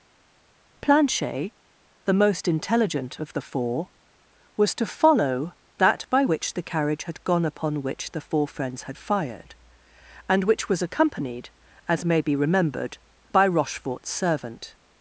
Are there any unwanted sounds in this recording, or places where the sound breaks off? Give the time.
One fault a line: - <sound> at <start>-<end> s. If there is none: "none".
none